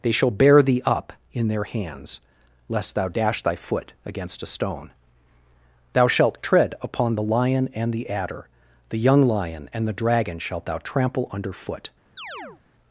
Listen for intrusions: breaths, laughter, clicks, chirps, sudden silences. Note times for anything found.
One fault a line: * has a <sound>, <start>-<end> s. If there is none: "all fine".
* has a chirp, 12.2-12.6 s